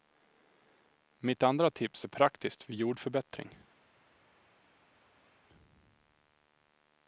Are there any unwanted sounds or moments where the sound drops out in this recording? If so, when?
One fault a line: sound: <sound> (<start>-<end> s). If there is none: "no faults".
no faults